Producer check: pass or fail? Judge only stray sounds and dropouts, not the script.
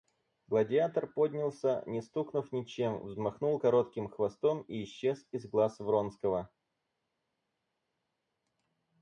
pass